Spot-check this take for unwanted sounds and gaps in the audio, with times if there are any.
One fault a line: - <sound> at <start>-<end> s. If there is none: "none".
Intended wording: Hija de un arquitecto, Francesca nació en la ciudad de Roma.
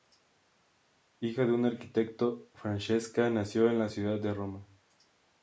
none